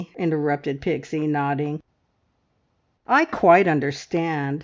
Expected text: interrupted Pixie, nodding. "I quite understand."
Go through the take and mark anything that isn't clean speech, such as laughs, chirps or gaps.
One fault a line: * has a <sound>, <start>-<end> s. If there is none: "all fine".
all fine